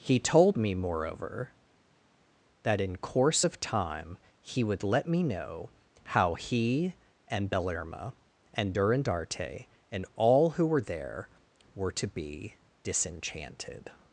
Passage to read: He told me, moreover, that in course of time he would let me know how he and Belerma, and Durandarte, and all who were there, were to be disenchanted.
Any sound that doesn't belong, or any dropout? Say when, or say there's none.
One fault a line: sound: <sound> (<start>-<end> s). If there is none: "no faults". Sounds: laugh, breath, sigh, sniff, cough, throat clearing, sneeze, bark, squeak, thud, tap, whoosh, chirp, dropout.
no faults